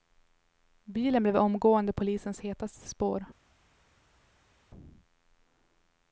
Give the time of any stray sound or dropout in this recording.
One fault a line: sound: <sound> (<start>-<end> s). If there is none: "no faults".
no faults